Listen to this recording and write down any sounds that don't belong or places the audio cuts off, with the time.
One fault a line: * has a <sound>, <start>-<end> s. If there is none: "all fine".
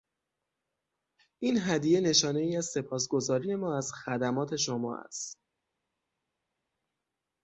all fine